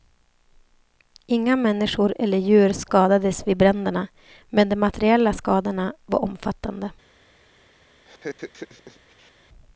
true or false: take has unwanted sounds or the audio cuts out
true